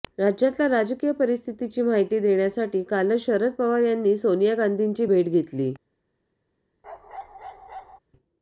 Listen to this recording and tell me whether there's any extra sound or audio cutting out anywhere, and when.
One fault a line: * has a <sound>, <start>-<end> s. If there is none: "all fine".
* has a bark, 6.8-8.0 s